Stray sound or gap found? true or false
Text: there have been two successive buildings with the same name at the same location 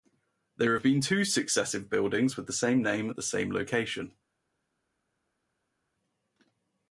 false